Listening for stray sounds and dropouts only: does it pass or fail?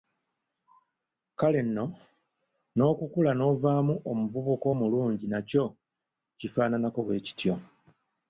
pass